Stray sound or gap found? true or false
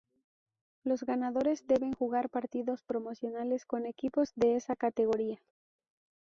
false